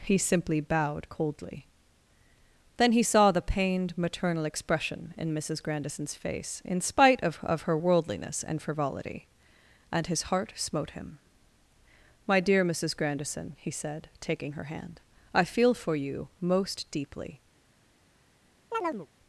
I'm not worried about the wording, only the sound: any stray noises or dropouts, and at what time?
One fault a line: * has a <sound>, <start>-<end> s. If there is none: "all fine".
* has a chirp, 18.7-19.1 s